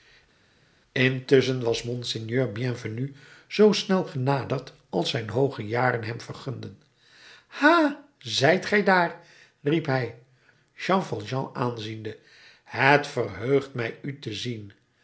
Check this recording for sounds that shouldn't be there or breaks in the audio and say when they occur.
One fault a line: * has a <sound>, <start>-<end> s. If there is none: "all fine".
all fine